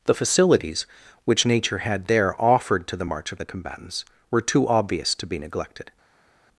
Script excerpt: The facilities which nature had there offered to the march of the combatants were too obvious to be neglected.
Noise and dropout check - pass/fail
pass